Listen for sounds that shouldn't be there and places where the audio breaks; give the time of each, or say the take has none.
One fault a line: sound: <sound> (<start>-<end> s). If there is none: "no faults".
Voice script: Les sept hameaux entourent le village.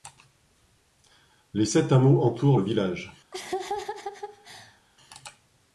sound: laugh (3.3-4.8 s)